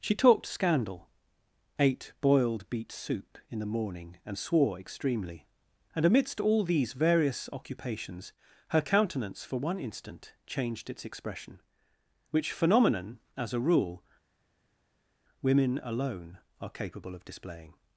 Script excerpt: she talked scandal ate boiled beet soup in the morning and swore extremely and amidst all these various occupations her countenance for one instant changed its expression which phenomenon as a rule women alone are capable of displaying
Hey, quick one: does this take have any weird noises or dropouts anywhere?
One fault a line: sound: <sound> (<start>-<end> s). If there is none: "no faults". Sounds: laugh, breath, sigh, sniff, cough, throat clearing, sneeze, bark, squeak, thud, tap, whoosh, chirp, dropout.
no faults